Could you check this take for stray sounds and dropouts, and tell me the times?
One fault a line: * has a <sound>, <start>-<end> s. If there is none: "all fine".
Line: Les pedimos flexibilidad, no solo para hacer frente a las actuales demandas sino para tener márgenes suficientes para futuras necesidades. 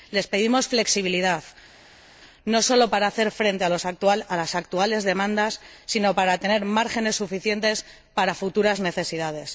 all fine